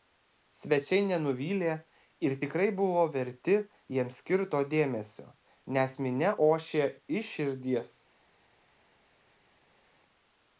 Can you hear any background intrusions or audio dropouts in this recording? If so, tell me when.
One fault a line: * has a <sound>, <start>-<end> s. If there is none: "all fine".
all fine